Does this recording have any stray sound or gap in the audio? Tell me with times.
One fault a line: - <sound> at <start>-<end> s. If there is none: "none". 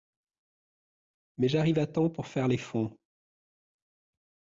none